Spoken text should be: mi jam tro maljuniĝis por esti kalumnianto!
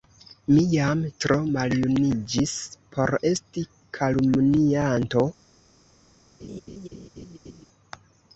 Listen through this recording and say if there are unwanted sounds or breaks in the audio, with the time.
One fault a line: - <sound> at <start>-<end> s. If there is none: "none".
- laugh at 6.4-7.7 s